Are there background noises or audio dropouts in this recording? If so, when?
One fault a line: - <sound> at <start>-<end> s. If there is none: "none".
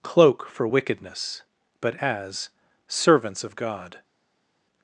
none